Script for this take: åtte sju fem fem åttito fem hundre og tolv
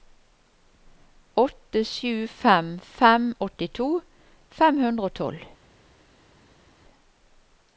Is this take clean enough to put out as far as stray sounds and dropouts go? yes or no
yes